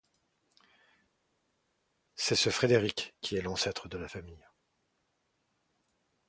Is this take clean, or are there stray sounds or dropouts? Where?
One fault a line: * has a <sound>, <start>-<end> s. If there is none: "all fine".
all fine